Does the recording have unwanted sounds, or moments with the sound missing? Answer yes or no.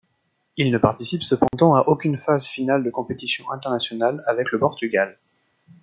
yes